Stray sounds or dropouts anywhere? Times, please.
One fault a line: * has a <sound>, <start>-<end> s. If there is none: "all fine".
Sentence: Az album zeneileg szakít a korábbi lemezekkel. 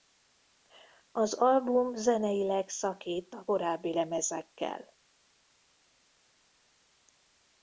all fine